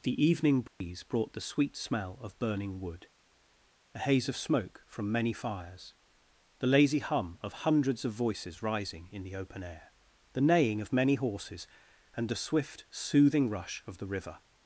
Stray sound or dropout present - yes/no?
yes